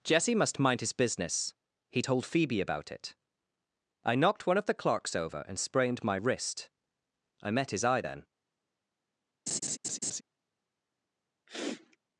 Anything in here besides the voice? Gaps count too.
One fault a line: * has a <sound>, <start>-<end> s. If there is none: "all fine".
* has a laugh, 9.5-10.2 s
* has a sniff, 11.5-12.0 s